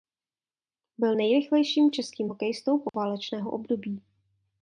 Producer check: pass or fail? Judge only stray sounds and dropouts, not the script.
fail